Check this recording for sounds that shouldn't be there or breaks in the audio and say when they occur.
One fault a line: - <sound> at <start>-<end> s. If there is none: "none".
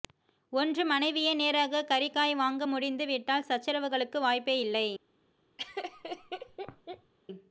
- laugh at 5.6-7.1 s